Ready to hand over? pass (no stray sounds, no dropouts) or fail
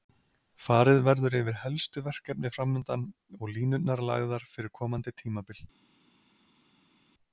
pass